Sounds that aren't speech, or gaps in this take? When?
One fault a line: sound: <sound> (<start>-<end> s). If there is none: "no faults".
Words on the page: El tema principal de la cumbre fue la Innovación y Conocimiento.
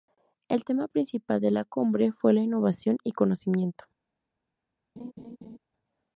sound: laugh (5.0-5.6 s)